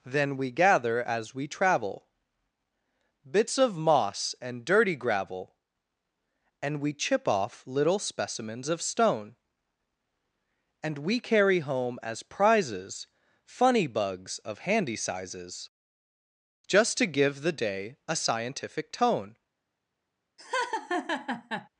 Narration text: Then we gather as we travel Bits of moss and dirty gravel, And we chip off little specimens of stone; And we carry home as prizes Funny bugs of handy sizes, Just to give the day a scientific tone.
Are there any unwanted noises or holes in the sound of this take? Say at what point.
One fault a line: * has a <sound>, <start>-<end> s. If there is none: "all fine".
* has a laugh, 20.4-21.7 s